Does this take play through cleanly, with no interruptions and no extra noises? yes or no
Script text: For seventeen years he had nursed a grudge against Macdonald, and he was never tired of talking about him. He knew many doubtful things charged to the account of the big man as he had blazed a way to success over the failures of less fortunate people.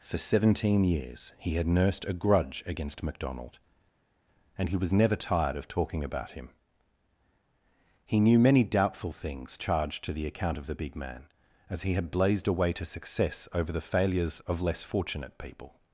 yes